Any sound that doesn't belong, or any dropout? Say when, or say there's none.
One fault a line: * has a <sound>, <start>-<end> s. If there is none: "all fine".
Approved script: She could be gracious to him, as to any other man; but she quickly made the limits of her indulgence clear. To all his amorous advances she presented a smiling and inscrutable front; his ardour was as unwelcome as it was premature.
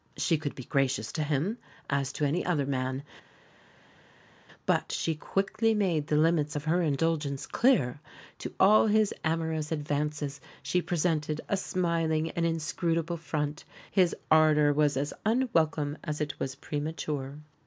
all fine